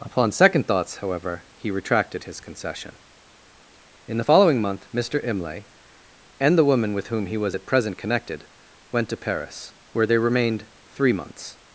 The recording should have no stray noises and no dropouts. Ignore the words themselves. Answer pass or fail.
pass